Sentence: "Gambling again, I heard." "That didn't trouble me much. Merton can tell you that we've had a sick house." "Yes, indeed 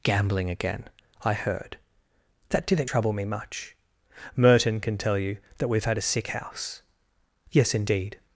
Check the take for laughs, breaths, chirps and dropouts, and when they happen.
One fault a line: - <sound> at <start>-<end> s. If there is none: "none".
none